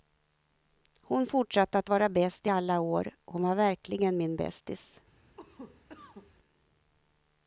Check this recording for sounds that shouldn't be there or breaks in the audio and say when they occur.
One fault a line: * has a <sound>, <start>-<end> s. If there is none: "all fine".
* has a cough, 5.4-6.3 s